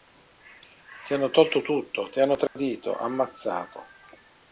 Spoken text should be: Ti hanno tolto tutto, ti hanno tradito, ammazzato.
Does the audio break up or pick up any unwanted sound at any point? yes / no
yes